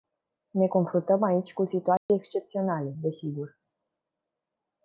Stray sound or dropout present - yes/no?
yes